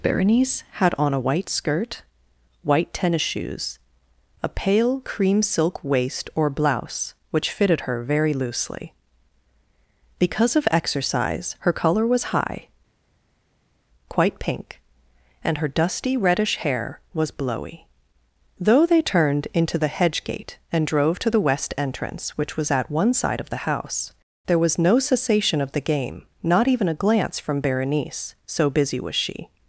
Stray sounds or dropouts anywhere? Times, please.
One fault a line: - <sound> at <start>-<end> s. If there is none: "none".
none